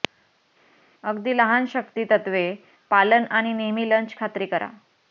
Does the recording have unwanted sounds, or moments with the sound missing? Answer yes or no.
no